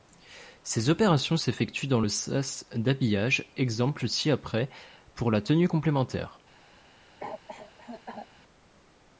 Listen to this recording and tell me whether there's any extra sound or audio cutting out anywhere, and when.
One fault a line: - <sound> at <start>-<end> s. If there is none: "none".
- cough at 7.2-8.3 s